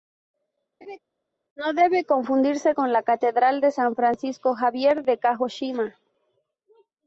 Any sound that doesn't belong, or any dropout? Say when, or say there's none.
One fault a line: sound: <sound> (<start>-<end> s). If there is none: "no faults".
sound: laugh (0.8-1.0 s)